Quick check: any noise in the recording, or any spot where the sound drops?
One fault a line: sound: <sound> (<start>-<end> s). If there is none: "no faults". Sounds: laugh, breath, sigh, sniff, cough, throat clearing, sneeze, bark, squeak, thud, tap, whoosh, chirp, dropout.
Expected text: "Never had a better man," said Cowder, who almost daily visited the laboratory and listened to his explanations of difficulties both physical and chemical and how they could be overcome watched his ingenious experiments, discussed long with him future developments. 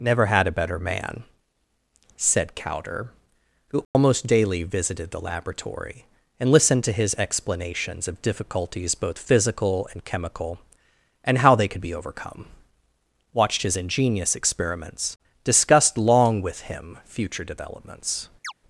sound: dropout (3.8-3.9 s)
sound: chirp (18.4-18.5 s)